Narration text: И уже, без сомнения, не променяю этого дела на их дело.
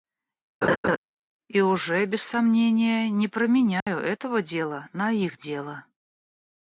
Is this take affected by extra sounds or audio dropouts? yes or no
yes